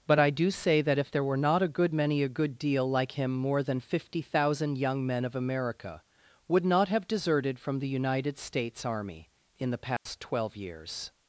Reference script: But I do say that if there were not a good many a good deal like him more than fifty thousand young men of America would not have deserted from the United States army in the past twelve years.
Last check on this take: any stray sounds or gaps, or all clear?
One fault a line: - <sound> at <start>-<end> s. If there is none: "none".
- dropout at 10.0-10.1 s